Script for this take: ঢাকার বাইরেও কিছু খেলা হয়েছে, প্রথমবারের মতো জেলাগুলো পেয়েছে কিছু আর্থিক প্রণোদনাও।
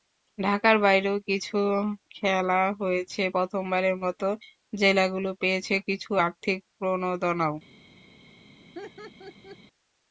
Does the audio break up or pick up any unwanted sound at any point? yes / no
yes